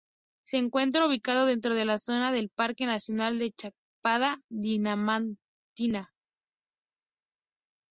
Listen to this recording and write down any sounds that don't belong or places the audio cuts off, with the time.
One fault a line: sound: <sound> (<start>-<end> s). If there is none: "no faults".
no faults